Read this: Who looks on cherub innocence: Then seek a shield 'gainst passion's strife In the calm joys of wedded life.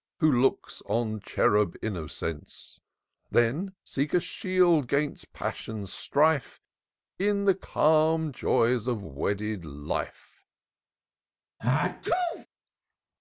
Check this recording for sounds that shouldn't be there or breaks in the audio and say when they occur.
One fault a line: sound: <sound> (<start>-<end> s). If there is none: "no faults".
sound: sneeze (11.6-12.5 s)